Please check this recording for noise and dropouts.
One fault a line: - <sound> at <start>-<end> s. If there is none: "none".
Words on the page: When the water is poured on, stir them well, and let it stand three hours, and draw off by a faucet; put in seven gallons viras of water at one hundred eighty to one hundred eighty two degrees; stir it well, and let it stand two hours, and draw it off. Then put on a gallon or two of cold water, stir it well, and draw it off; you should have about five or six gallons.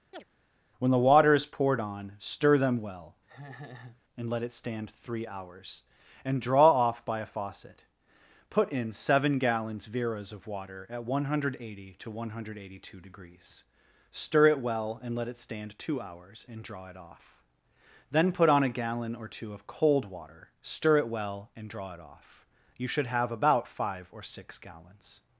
- chirp at 0.1-0.2 s
- laugh at 3.3-4.0 s